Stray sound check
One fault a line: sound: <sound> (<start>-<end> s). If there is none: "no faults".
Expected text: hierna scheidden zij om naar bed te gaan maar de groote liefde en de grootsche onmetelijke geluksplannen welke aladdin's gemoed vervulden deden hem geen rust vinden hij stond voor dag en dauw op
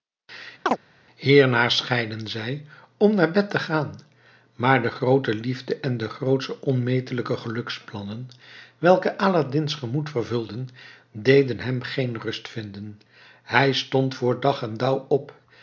sound: chirp (0.7-0.8 s)